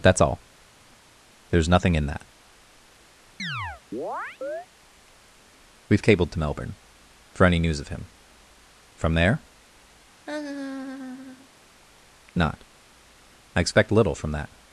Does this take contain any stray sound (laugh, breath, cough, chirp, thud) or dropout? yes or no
yes